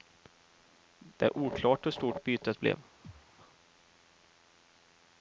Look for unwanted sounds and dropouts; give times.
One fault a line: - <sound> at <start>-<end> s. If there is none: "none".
- thud at 3.0-3.3 s